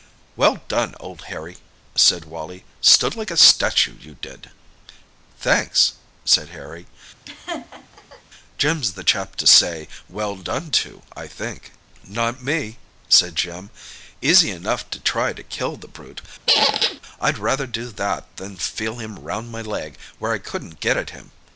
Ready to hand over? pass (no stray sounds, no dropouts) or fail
fail